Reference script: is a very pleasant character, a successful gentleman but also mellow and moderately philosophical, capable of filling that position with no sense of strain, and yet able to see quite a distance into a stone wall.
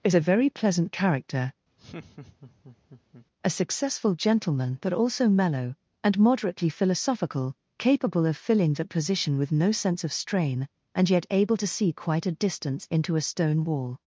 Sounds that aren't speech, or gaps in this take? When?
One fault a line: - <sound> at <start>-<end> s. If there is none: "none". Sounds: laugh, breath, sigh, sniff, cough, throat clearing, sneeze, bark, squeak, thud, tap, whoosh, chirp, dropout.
- laugh at 1.8-3.3 s